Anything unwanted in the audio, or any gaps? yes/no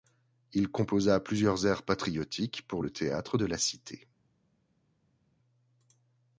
no